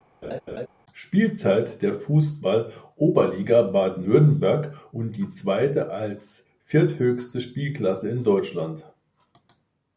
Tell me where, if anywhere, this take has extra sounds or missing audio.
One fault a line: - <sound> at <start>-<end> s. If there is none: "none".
- laugh at 0.2-0.7 s